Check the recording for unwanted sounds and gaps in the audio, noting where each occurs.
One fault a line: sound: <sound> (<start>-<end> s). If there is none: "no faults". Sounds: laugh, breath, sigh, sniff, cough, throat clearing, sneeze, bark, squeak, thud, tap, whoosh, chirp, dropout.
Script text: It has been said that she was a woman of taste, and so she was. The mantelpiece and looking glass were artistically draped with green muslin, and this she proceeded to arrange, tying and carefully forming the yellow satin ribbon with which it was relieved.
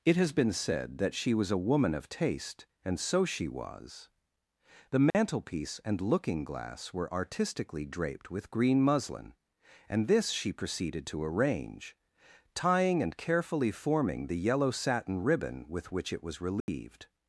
sound: dropout (5.1-5.1 s)
sound: dropout (16.6-16.7 s)